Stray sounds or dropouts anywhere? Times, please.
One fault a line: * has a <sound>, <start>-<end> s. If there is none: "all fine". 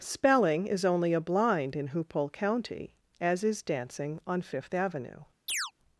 * has a chirp, 5.5-5.7 s